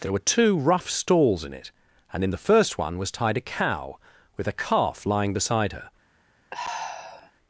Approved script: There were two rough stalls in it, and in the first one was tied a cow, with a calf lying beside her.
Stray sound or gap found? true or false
true